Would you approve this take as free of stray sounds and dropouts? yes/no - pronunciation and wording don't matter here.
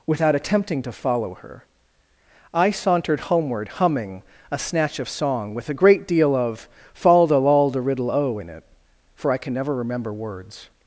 yes